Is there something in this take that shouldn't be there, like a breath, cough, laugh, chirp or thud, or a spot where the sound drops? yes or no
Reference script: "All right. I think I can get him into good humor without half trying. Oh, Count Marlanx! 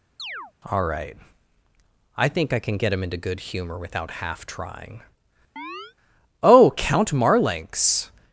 yes